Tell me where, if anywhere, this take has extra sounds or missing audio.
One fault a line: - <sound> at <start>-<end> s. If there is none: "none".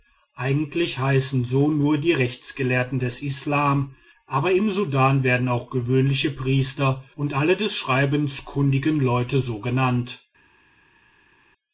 none